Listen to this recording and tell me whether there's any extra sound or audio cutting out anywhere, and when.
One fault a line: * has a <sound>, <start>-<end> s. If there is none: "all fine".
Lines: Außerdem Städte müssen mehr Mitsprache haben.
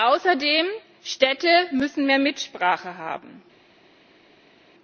all fine